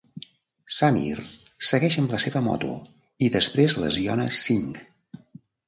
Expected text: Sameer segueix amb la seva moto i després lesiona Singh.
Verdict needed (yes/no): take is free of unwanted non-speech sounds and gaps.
yes